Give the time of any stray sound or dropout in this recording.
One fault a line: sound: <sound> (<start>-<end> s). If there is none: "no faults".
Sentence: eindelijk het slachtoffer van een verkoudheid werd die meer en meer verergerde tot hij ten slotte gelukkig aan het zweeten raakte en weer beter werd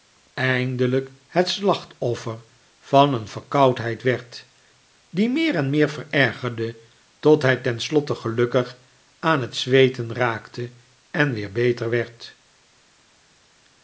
no faults